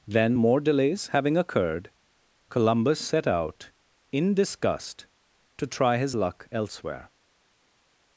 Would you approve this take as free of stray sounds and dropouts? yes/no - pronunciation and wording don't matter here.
yes